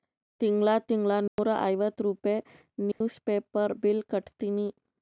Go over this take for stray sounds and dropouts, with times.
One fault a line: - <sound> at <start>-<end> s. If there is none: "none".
- dropout at 1.3-1.4 s
- dropout at 2.9-3.0 s